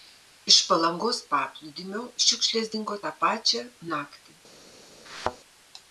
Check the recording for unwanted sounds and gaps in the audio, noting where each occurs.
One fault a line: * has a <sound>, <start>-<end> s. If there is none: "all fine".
* has a thud, 5.1-5.4 s